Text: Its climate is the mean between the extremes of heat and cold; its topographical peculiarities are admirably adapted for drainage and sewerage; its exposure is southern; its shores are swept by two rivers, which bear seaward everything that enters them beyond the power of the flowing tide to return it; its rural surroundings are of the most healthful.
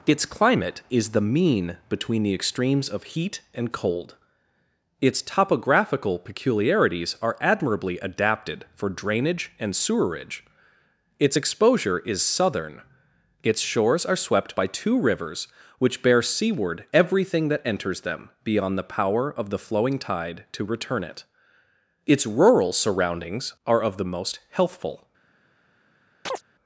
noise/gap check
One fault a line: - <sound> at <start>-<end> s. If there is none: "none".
- chirp at 26.3-26.4 s